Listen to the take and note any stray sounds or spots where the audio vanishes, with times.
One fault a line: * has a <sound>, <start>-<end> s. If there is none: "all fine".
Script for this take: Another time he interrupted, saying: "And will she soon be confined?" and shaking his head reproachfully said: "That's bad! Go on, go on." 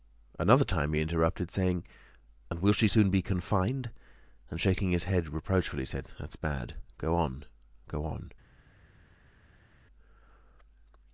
all fine